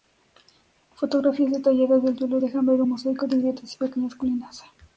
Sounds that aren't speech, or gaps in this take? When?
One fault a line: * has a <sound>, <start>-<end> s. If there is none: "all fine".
all fine